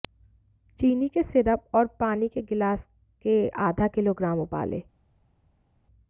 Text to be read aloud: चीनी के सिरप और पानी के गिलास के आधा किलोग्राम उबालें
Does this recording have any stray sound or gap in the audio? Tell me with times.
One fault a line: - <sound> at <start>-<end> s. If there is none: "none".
none